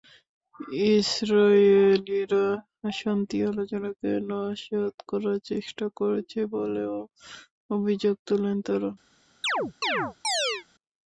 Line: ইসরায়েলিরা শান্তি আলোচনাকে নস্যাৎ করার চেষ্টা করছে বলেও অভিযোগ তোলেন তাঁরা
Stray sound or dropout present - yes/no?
yes